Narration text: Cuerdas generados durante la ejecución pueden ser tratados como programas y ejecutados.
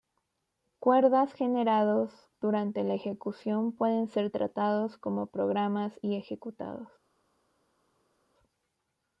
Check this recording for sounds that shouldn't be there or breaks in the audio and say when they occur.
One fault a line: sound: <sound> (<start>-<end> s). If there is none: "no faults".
no faults